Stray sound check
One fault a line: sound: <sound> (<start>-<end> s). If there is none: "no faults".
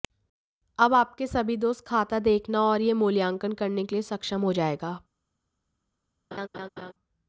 sound: laugh (6.3-6.9 s)